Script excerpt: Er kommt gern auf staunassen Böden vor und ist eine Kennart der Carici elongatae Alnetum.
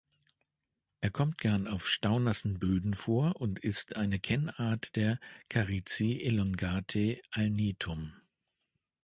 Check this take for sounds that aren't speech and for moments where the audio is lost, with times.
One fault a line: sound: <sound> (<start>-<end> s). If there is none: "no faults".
no faults